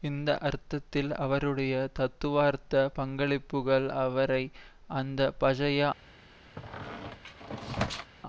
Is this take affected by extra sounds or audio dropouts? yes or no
yes